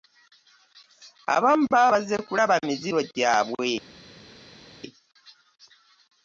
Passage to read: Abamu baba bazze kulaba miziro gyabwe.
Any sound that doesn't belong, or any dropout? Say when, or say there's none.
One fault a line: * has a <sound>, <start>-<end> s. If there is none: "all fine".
all fine